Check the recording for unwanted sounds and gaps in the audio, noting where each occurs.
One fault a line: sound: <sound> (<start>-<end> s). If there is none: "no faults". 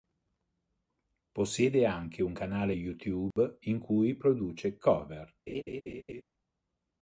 sound: dropout (3.3-3.4 s)
sound: laugh (5.5-6.2 s)